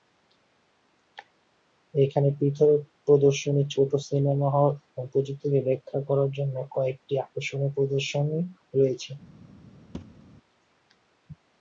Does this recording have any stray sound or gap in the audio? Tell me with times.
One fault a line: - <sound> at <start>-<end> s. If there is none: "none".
- thud at 9.9-10.3 s